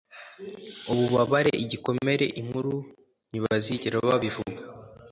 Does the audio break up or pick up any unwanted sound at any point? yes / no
no